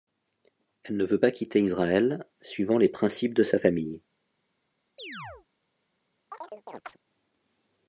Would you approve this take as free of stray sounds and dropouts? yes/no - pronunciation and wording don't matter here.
no